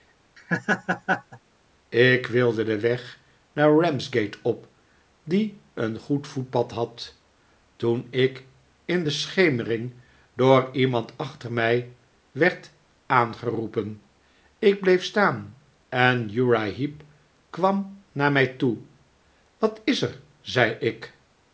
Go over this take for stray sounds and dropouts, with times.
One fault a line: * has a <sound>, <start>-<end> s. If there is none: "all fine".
* has a laugh, 0.4-1.4 s